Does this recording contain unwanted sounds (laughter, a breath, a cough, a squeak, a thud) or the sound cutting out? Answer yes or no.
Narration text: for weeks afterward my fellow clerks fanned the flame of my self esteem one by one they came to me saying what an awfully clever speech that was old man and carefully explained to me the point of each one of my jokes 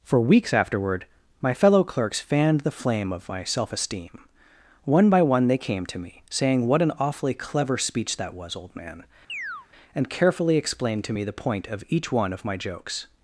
yes